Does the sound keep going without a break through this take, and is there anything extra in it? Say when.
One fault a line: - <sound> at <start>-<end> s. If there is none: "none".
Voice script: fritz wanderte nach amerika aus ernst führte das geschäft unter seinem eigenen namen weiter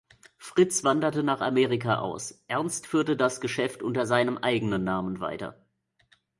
none